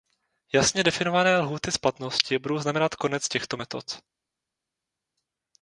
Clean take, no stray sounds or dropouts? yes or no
yes